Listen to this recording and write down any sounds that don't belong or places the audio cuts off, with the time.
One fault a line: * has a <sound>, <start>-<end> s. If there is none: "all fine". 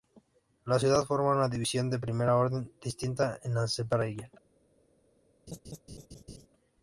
* has a laugh, 5.5-6.5 s